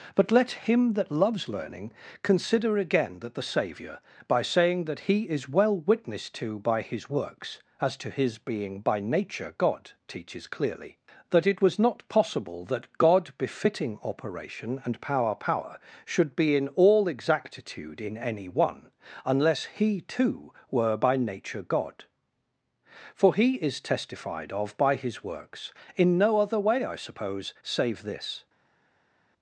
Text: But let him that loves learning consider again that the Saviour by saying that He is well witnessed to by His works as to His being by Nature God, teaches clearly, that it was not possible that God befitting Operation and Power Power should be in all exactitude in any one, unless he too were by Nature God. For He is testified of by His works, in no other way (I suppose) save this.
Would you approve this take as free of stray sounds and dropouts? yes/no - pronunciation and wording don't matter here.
yes